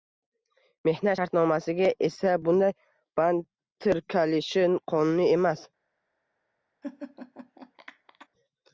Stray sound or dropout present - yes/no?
yes